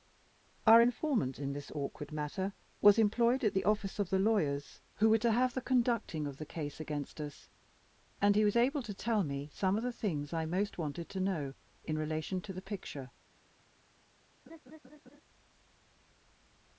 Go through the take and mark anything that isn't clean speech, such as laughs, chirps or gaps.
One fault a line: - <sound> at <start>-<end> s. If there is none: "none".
- laugh at 14.5-15.2 s